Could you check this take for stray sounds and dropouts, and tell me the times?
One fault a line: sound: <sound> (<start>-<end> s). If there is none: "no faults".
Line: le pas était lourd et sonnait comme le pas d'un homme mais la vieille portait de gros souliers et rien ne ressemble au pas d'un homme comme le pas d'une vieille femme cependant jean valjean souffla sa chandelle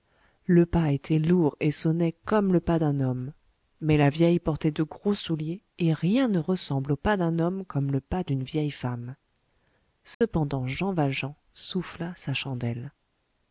sound: dropout (10.1-10.2 s)